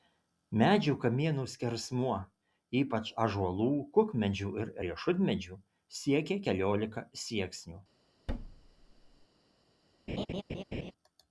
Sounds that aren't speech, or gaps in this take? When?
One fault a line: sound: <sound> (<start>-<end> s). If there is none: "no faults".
sound: thud (8.3-9.3 s)
sound: laugh (10.1-10.9 s)